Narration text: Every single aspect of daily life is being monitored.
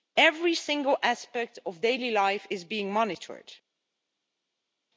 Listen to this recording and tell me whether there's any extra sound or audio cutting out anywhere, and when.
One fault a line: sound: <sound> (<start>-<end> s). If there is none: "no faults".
no faults